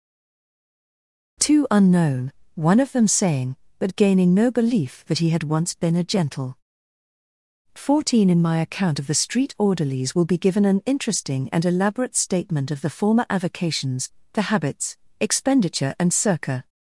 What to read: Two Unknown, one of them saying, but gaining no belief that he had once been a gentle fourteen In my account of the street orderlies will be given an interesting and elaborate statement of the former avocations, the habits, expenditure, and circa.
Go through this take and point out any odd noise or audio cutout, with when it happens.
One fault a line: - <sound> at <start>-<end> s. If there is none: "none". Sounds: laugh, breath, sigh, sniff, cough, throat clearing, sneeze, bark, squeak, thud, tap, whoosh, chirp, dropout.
none